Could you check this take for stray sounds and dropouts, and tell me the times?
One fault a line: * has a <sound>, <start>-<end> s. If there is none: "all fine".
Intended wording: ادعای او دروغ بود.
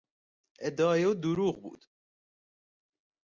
all fine